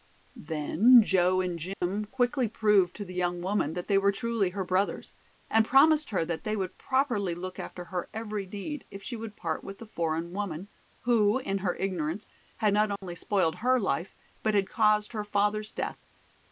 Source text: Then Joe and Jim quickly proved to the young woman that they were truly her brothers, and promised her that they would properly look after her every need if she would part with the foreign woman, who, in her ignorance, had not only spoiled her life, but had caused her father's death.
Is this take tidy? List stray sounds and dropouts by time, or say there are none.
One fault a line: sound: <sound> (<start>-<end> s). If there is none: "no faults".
sound: dropout (1.7-1.8 s)
sound: dropout (13.0-13.0 s)